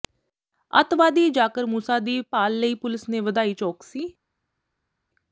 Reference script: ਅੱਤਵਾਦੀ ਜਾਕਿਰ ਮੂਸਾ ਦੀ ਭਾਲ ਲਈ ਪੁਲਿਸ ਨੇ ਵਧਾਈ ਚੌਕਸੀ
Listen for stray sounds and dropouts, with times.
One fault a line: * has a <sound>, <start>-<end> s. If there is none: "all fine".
all fine